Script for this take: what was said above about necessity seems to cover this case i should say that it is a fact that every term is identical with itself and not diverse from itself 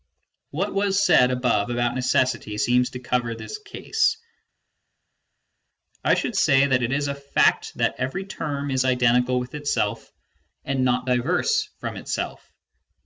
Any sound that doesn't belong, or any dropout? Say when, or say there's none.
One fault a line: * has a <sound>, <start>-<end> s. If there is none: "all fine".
all fine